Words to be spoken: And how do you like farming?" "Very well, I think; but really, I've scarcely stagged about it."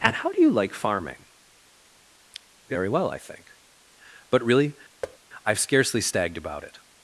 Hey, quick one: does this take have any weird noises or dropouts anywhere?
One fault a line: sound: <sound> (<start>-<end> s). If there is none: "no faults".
sound: thud (5.0-5.2 s)